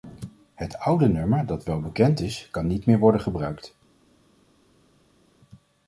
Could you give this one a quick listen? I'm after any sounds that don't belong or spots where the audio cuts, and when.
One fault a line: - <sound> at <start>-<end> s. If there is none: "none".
none